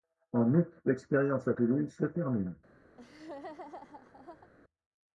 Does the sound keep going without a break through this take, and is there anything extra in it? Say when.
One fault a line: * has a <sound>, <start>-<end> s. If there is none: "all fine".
* has a laugh, 2.9-4.5 s